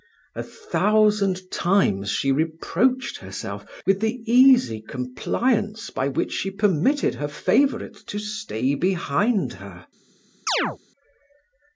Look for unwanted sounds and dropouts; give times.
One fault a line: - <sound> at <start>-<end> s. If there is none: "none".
- chirp at 10.5-10.8 s